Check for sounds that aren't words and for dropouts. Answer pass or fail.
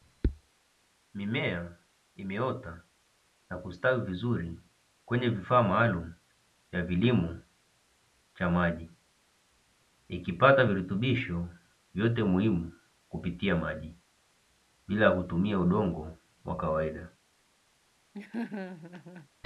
fail